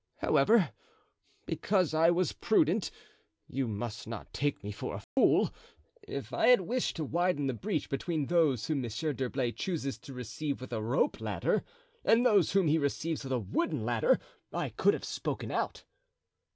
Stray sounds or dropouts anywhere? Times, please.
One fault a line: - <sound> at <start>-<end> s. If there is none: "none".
- dropout at 5.0-5.2 s